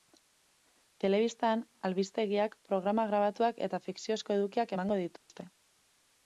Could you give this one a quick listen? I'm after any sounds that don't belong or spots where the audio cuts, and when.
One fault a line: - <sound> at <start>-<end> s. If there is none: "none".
- dropout at 5.2-5.3 s